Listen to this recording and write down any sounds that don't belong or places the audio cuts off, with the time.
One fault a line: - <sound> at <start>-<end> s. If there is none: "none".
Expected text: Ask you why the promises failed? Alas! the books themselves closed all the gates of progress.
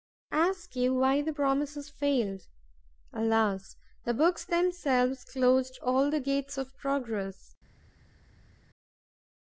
none